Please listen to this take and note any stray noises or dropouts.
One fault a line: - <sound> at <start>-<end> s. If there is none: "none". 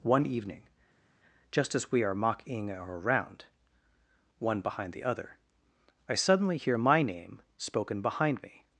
none